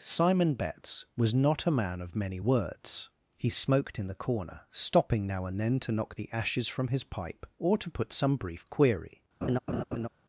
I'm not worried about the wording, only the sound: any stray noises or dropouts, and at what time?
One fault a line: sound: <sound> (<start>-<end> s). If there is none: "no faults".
sound: laugh (9.4-10.1 s)